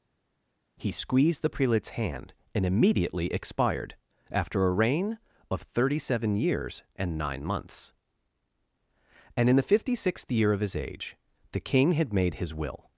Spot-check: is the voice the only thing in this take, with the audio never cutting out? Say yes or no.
yes